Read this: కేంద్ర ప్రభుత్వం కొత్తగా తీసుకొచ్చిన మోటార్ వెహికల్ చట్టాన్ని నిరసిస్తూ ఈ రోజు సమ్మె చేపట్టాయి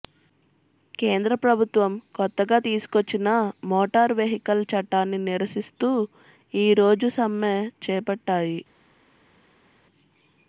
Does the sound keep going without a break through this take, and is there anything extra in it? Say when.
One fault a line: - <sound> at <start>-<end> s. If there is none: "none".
none